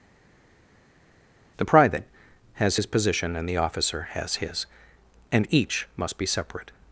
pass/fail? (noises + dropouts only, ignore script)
pass